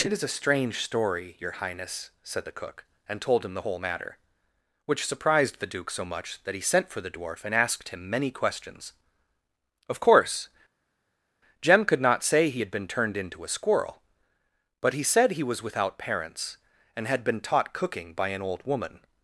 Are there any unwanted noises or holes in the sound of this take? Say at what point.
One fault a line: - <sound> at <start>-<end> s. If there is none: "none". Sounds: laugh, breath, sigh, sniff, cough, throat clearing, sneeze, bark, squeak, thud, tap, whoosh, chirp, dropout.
none